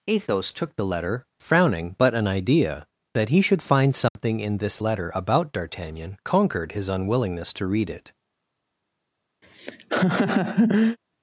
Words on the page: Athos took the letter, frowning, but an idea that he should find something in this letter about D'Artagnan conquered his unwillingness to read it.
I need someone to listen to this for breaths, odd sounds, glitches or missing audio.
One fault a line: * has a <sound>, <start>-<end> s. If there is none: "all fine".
* has a dropout, 4.1-4.2 s
* has a laugh, 9.4-11.0 s